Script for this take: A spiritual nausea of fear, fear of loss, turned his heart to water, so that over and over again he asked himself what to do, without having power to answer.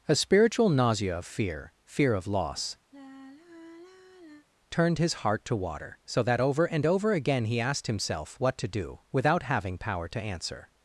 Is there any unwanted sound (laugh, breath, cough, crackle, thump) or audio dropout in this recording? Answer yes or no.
yes